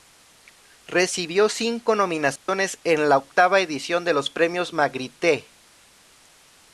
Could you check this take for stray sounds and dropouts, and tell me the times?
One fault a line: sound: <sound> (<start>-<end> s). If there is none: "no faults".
sound: dropout (2.4-2.5 s)